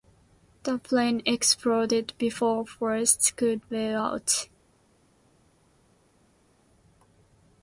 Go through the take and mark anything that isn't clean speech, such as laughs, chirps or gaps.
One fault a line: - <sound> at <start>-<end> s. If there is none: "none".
none